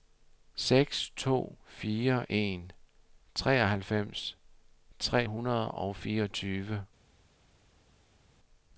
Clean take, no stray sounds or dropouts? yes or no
yes